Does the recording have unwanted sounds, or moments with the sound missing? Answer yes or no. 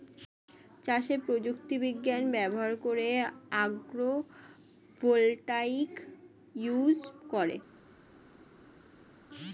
no